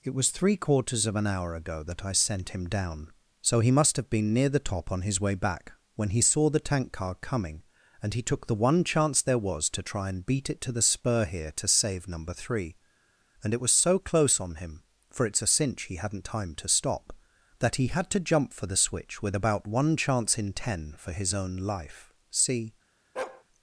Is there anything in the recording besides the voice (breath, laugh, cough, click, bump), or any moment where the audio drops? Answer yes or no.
yes